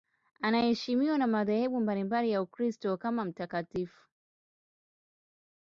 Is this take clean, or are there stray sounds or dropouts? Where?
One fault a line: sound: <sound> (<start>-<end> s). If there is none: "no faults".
no faults